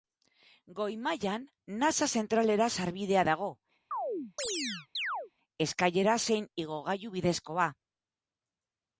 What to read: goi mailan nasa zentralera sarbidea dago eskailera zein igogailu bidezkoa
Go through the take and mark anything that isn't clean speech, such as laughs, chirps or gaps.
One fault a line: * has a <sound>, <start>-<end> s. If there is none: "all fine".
* has a chirp, 3.9-5.3 s